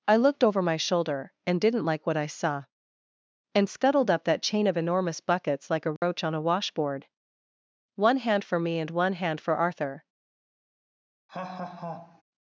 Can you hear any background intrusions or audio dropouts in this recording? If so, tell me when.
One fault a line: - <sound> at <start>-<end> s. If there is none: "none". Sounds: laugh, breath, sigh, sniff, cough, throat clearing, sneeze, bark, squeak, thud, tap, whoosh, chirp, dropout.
- dropout at 6.0-6.0 s
- laugh at 11.3-12.2 s